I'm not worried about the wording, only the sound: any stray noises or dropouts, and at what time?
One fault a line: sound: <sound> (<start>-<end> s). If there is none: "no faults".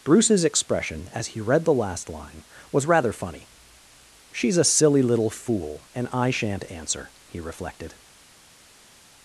no faults